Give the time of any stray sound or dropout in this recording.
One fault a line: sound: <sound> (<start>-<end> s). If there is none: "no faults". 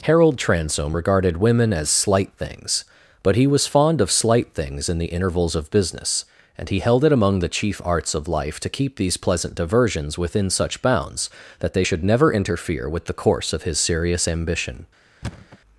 sound: thud (15.2-15.6 s)